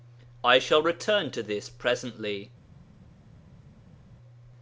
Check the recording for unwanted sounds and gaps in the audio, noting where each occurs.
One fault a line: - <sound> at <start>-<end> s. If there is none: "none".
none